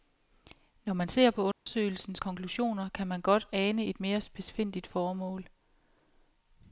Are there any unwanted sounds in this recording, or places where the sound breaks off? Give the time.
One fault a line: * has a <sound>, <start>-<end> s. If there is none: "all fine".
* has a dropout, 1.5-1.7 s